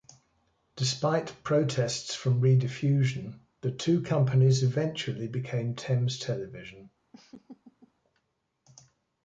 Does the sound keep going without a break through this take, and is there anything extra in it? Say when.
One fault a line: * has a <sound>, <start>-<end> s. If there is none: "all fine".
* has a laugh, 7.1-7.9 s